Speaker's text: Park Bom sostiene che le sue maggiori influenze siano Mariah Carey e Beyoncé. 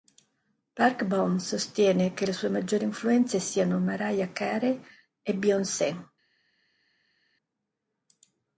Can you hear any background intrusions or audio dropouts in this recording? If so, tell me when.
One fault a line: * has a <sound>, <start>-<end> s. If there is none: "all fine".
all fine